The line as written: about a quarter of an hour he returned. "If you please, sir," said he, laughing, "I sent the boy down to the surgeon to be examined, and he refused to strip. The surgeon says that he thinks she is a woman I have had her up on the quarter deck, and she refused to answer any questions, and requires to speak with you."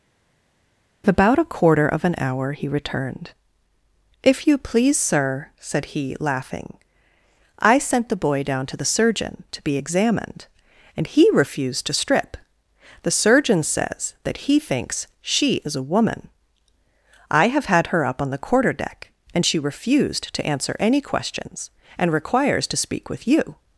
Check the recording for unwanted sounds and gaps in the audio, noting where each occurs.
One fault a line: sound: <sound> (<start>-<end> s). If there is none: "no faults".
no faults